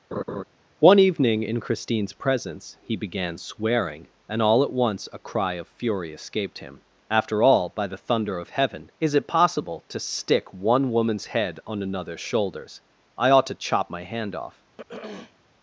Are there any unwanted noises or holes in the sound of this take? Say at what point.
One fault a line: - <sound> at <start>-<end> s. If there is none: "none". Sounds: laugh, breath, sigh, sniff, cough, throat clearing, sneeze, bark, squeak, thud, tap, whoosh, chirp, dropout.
- laugh at 0.1-0.4 s
- throat clearing at 14.8-15.4 s